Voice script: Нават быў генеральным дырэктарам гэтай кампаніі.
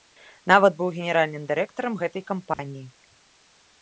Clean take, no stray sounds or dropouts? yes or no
no